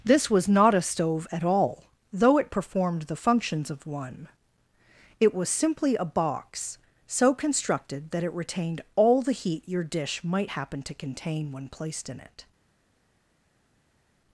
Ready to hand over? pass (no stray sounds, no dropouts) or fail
pass